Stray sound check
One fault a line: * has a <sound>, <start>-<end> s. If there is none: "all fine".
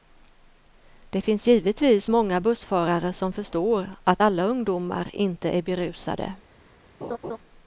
* has a laugh, 7.0-7.4 s